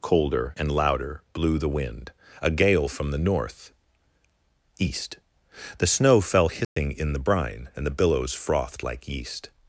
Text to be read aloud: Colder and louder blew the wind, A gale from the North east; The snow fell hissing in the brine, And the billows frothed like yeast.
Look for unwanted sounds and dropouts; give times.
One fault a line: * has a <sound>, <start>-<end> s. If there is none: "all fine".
* has a dropout, 6.6-6.8 s